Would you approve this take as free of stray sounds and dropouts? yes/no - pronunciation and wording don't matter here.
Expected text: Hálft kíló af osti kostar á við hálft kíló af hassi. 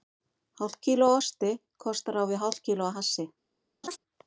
no